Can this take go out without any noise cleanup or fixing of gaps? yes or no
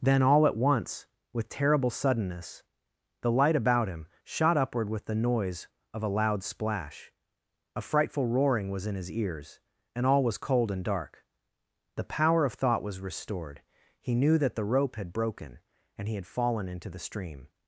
yes